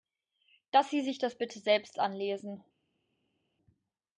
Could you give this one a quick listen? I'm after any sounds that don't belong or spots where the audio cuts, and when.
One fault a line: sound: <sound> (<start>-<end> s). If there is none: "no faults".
no faults